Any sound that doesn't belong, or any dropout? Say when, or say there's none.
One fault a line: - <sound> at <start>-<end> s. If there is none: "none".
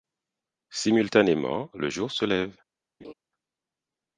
- laugh at 3.0-3.1 s